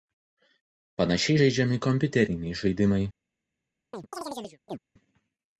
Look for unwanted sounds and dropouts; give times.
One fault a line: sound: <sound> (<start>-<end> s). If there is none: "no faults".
sound: chirp (3.9-4.8 s)